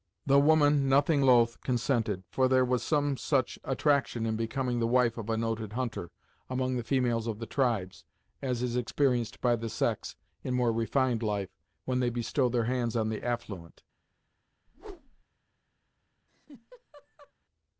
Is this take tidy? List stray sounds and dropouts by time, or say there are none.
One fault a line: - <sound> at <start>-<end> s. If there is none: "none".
- whoosh at 14.7-15.2 s
- laugh at 16.3-17.3 s